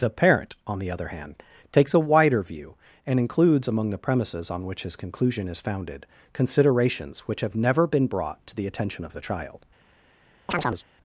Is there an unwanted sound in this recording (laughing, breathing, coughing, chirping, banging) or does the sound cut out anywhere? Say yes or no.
yes